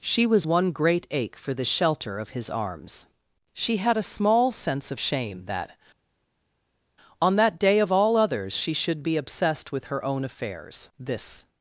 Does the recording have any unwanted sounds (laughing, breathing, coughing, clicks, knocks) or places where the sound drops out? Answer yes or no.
no